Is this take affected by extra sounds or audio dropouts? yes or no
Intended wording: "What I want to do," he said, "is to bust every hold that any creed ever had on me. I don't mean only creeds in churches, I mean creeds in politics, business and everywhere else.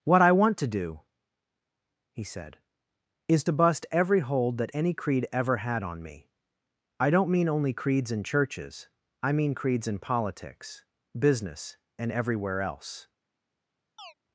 yes